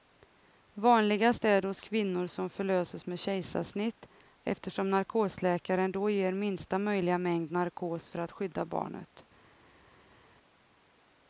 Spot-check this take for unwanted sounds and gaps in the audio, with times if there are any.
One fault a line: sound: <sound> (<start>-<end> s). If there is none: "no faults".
no faults